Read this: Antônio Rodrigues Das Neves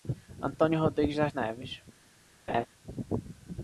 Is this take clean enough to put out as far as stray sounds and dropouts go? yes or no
no